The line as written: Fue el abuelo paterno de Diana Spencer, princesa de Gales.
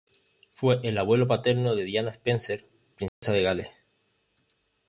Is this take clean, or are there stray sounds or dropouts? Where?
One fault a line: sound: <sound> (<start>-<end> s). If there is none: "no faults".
sound: dropout (3.1-3.2 s)